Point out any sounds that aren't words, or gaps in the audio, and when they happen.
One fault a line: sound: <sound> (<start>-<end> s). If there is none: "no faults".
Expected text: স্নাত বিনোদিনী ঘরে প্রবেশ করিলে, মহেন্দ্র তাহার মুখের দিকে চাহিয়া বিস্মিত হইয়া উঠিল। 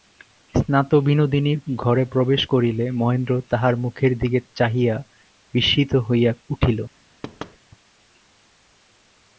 sound: thud (7.2-7.6 s)